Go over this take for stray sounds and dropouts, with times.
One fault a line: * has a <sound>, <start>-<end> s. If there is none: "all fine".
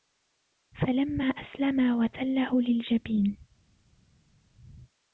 all fine